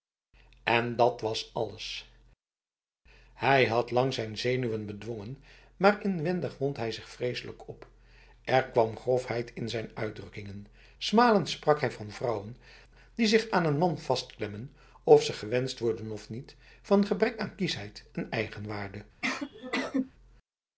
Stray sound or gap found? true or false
true